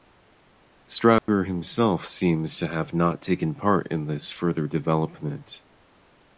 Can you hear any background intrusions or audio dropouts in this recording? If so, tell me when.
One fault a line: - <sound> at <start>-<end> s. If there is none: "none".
- dropout at 1.2-1.3 s